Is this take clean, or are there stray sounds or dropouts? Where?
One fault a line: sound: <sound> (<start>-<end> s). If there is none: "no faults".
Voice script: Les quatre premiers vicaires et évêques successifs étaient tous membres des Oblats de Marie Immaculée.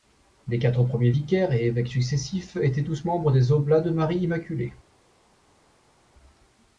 no faults